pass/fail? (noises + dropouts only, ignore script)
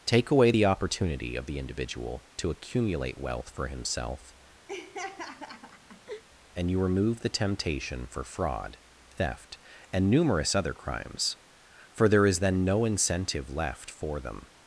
fail